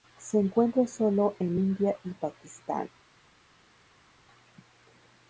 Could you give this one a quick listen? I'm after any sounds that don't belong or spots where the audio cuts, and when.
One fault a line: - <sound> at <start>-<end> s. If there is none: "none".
none